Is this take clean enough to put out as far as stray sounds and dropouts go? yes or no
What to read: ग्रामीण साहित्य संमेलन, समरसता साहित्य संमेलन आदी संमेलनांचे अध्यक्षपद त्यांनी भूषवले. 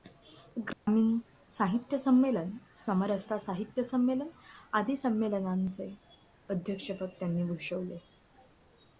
no